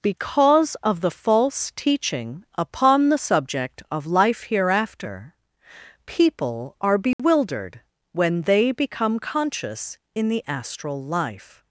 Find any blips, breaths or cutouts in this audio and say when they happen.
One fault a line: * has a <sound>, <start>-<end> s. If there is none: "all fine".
* has a dropout, 7.1-7.2 s